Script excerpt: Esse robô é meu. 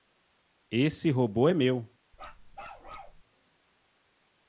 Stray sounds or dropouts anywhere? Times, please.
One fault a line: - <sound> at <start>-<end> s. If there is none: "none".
- bark at 2.1-3.2 s